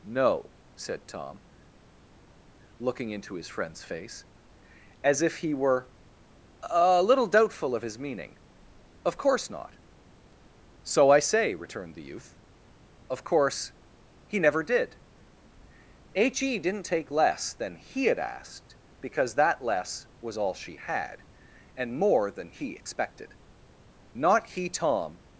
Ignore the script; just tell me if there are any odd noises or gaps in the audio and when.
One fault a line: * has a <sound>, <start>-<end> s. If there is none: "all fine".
all fine